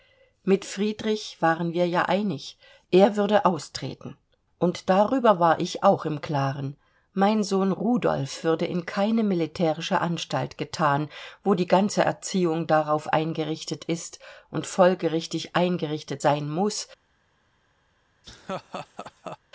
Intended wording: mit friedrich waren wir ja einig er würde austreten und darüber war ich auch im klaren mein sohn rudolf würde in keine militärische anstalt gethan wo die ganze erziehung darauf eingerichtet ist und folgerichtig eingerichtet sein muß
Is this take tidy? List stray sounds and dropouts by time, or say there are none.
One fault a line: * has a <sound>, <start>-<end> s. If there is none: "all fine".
* has a laugh, 18.2-19.4 s